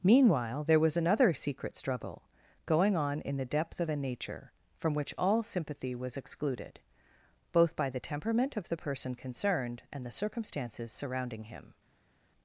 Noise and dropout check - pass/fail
pass